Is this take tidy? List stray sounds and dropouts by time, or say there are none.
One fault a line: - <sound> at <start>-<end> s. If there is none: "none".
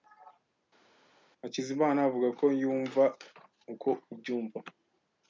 none